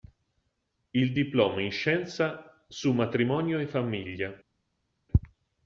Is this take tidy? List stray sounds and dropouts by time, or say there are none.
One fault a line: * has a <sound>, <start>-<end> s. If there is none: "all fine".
all fine